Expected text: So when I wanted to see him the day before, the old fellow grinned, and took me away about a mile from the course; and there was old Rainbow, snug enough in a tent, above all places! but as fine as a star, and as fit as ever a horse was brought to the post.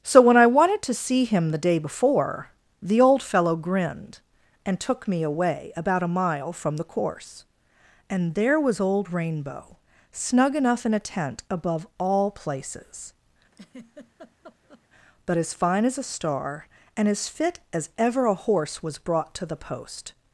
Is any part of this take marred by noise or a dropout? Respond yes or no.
yes